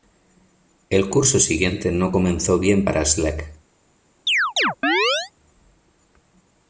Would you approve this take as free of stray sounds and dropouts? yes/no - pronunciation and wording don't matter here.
no